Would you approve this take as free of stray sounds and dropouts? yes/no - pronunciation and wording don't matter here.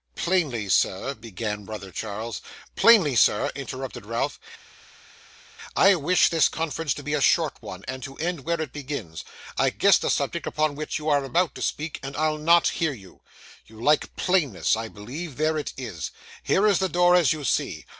yes